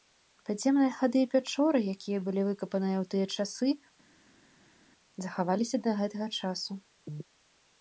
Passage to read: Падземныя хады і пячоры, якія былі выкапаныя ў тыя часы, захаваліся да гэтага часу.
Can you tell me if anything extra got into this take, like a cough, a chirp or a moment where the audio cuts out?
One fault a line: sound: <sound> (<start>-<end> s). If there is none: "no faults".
no faults